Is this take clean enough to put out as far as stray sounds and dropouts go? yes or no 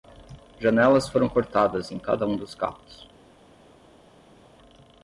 yes